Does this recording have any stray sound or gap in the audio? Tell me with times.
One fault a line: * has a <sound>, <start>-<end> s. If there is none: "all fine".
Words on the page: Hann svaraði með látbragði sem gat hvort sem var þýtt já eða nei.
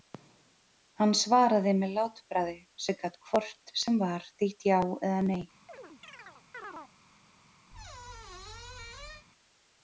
* has a chirp, 5.7-6.9 s
* has a squeak, 7.7-9.3 s